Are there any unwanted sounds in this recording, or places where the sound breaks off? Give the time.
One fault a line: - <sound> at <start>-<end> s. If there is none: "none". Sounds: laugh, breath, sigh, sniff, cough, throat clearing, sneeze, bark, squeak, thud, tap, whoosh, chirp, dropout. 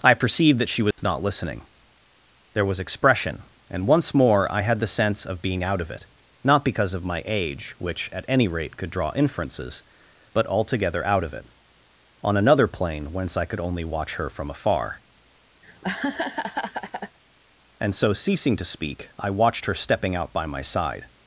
- dropout at 0.9-1.0 s
- laugh at 15.6-17.2 s